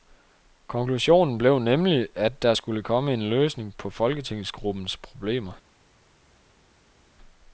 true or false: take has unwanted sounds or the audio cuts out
false